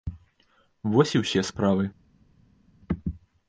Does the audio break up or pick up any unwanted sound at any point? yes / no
no